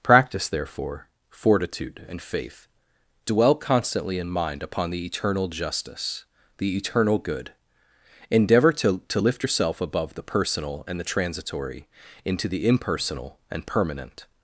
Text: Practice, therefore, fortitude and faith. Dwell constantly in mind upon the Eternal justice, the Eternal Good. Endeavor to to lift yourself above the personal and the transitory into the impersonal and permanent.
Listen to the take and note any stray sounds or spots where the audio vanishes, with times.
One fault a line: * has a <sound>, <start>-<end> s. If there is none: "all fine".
all fine